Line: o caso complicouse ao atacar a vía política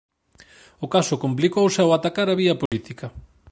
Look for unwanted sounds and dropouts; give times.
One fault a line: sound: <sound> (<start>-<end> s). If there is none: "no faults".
sound: dropout (2.7-2.7 s)